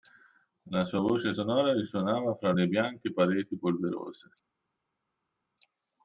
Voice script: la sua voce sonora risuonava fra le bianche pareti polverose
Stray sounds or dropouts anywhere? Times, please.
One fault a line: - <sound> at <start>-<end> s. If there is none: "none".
none